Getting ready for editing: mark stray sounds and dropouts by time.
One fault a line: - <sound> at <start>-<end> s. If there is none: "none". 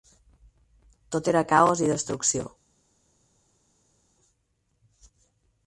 none